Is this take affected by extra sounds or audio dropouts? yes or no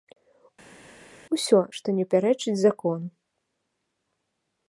no